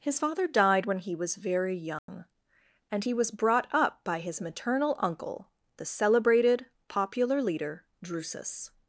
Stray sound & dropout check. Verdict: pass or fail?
fail